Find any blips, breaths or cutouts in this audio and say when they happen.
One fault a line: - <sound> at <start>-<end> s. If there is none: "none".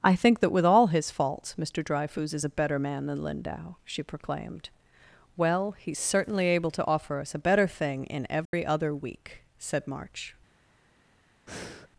- dropout at 8.5-8.5 s
- breath at 11.5-11.9 s